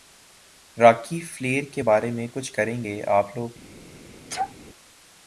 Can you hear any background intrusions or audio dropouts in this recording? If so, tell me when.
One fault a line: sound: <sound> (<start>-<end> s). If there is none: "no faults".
sound: sneeze (4.3-4.5 s)